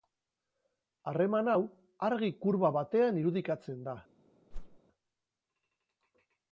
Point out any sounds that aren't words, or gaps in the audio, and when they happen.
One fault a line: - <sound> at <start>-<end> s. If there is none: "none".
- whoosh at 4.5-4.8 s